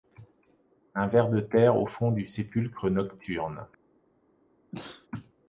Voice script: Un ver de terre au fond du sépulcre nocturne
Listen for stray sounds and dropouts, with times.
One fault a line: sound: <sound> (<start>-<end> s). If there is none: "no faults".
sound: sneeze (4.7-5.1 s)